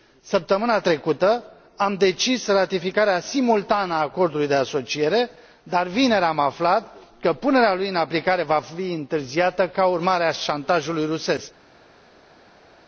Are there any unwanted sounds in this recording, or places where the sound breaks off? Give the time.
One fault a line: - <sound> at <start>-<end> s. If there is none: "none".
none